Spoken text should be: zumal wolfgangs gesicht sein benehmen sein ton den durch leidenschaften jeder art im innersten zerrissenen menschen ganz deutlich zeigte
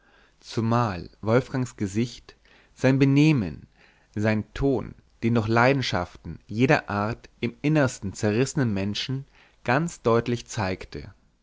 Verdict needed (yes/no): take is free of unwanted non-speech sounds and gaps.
yes